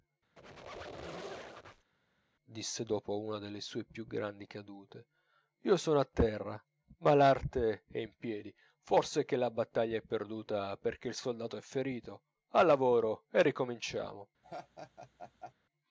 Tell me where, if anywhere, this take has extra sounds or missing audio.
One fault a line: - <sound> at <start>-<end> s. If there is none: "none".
- squeak at 0.4-1.9 s
- laugh at 14.4-15.5 s